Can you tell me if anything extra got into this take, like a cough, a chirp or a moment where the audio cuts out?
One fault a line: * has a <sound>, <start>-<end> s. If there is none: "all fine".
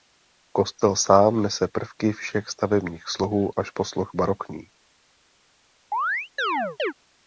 * has a chirp, 5.9-6.9 s